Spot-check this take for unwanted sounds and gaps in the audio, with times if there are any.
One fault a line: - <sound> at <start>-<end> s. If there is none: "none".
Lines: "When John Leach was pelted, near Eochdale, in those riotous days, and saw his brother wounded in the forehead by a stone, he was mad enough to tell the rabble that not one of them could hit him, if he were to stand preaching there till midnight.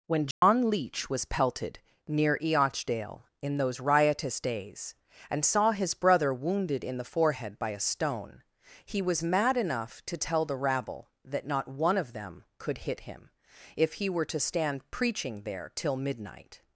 - dropout at 0.3-0.4 s